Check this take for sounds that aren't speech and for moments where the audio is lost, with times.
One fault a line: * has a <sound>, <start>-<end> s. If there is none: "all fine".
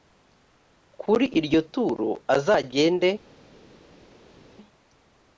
all fine